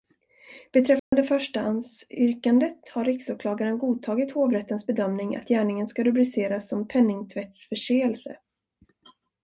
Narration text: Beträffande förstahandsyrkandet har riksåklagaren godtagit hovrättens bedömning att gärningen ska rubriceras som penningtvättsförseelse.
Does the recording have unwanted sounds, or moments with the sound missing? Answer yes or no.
yes